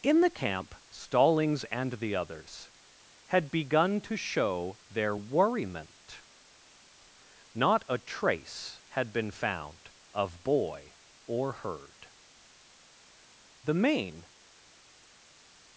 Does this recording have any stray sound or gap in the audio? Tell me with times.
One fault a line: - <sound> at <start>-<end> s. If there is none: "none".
none